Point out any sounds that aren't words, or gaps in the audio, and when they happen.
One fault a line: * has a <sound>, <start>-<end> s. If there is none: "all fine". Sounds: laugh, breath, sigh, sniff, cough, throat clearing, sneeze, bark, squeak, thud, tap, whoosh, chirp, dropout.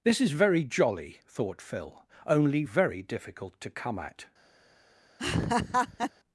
* has a laugh, 5.2-6.1 s